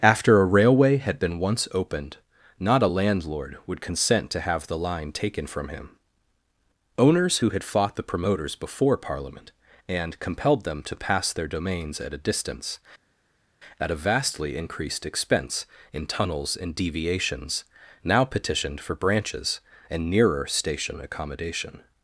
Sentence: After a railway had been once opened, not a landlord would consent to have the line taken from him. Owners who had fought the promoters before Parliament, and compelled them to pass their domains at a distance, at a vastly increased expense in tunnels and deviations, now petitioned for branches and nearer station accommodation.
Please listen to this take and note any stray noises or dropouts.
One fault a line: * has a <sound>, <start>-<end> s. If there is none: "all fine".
all fine